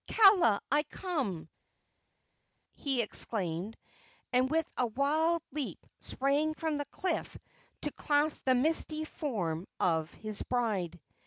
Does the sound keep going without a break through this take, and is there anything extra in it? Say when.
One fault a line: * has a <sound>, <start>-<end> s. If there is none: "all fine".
all fine